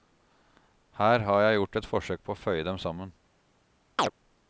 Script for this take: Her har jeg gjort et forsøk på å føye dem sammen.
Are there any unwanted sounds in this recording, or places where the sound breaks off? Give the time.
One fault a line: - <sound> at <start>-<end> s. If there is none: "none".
- chirp at 4.0-4.1 s